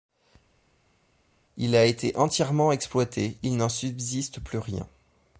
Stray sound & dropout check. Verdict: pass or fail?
pass